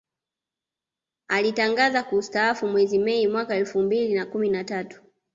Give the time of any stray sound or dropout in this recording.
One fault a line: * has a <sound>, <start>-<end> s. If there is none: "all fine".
all fine